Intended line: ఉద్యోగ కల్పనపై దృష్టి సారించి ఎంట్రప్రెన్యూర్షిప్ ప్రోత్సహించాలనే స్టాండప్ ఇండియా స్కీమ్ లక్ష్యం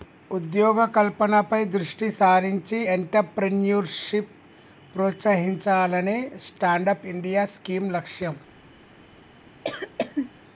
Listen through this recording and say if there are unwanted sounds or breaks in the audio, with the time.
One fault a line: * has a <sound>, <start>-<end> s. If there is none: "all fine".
* has a cough, 9.6-10.3 s